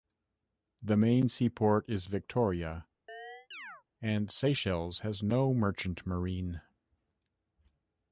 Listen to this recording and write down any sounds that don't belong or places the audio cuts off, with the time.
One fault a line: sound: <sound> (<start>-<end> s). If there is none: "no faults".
sound: chirp (3.1-3.8 s)